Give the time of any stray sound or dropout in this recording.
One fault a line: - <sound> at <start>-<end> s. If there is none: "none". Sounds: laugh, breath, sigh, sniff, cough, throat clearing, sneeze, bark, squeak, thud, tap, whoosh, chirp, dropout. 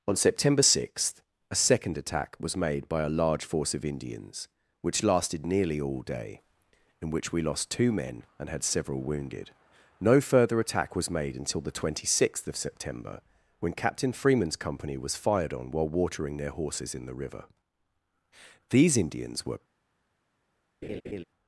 - laugh at 20.8-21.2 s